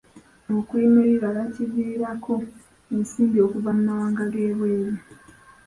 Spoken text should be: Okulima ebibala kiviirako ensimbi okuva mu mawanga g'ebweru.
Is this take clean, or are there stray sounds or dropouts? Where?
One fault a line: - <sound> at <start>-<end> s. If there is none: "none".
none